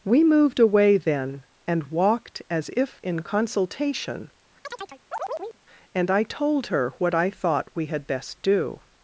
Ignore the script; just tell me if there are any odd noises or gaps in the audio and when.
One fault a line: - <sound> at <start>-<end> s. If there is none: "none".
- chirp at 4.6-5.6 s